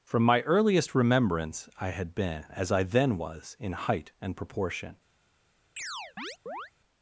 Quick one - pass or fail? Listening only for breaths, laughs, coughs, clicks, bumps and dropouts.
fail